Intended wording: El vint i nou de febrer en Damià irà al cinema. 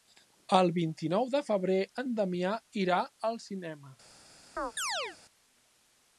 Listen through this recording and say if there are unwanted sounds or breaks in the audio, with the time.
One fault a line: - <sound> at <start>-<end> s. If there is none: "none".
- chirp at 4.6-5.2 s